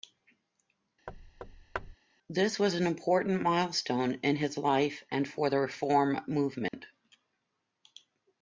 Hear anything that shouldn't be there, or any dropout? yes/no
yes